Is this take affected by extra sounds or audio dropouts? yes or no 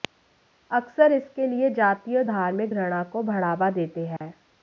yes